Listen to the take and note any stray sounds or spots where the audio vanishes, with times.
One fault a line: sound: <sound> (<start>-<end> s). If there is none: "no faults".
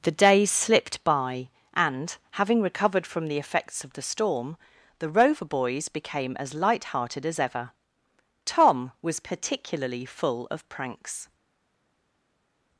no faults